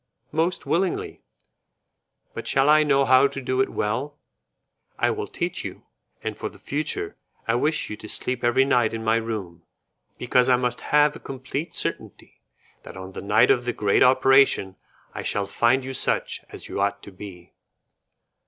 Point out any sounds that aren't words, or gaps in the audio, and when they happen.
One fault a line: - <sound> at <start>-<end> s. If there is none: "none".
none